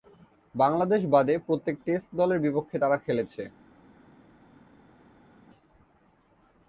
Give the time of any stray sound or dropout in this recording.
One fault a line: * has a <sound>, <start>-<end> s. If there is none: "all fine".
all fine